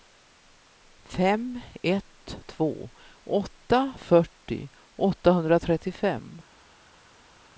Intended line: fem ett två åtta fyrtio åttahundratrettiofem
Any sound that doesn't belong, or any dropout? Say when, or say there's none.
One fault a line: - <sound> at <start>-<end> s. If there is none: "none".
none